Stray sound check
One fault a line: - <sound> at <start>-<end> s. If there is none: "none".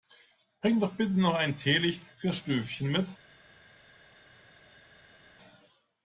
none